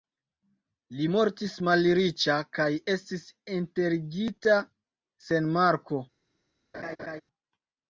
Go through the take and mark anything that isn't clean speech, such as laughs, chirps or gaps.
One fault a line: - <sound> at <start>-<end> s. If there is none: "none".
- laugh at 6.7-7.2 s